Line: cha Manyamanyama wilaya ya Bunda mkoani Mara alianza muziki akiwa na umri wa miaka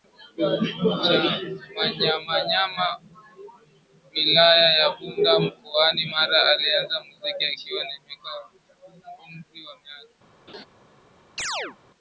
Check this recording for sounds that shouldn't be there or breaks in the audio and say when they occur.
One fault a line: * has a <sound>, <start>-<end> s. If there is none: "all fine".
* has a laugh, 10.5-10.7 s
* has a chirp, 11.4-11.8 s